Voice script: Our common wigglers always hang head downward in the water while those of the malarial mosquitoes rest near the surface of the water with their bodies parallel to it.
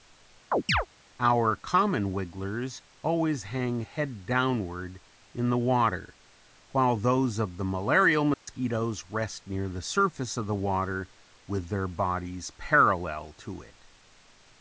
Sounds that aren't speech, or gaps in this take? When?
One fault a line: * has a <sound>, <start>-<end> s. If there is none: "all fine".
* has a chirp, 0.5-0.9 s
* has a dropout, 8.3-8.5 s